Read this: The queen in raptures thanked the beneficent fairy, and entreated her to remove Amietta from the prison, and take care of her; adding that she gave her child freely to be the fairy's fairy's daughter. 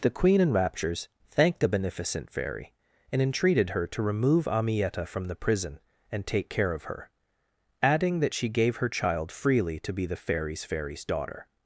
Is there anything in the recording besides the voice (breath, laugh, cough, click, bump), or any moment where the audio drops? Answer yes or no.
no